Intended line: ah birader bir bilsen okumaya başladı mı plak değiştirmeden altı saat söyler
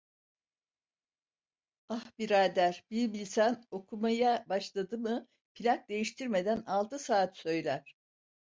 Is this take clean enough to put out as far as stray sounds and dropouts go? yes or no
yes